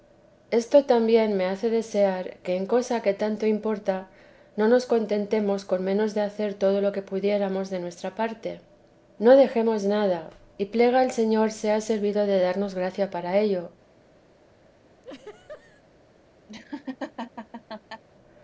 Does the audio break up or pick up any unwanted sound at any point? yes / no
yes